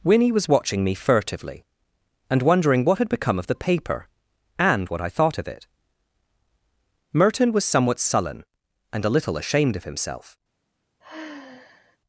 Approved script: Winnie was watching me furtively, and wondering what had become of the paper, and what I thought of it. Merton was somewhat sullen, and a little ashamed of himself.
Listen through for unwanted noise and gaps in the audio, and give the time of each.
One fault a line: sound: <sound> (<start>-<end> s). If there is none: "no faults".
sound: sigh (11.0-12.0 s)